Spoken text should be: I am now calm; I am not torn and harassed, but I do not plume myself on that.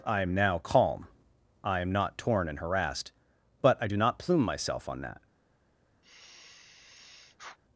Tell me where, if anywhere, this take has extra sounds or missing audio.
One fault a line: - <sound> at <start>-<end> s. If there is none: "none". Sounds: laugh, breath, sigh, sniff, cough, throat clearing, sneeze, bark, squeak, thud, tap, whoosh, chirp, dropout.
- sigh at 6.0-7.6 s